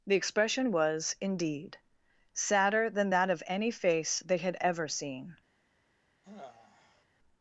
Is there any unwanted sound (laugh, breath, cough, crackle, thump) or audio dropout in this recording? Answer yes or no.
yes